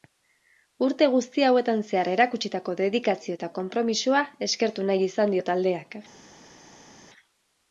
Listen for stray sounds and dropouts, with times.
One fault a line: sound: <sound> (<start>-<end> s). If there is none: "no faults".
no faults